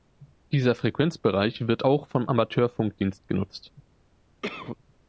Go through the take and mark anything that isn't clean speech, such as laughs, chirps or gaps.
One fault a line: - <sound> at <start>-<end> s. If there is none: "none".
- cough at 4.4-4.8 s